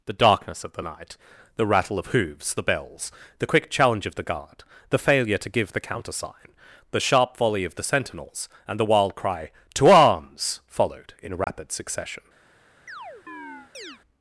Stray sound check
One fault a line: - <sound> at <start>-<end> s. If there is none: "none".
- dropout at 11.4-11.5 s
- chirp at 12.9-14.0 s